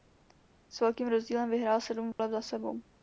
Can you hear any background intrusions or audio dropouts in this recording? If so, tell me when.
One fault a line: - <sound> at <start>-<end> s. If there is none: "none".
- dropout at 2.1-2.2 s